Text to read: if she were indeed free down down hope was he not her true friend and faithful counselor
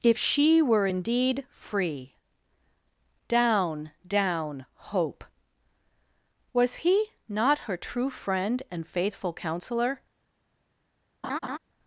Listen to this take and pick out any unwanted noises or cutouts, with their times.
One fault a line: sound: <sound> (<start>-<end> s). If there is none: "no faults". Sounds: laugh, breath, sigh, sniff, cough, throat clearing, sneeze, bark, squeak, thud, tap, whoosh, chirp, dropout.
sound: laugh (11.2-11.6 s)